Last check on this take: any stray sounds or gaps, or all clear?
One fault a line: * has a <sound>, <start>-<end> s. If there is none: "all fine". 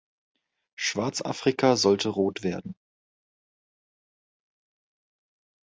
all fine